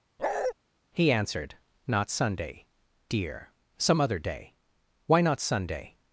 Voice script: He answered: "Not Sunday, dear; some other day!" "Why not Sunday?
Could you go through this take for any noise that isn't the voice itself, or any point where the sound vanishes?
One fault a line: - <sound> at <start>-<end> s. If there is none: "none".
- bark at 0.2-0.5 s